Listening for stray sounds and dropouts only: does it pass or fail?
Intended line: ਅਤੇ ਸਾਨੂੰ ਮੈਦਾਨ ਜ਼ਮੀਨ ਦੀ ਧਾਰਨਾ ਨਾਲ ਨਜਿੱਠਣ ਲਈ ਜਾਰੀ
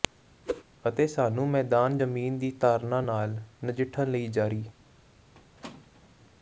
fail